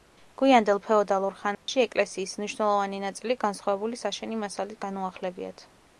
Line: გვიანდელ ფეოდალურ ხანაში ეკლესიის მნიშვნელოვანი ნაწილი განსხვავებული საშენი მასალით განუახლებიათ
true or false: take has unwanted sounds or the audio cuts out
true